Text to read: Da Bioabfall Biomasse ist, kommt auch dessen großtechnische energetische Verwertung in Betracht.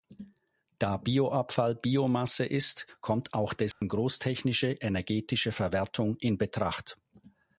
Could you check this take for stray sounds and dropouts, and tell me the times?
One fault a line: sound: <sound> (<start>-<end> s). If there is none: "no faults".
sound: dropout (3.7-3.8 s)